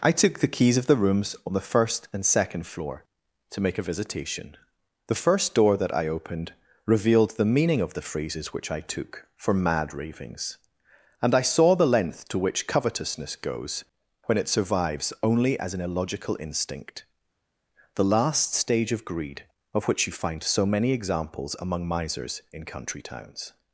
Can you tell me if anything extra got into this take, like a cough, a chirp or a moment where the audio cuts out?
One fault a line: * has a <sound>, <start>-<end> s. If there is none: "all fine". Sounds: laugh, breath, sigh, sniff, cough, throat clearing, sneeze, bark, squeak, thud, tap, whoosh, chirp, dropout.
all fine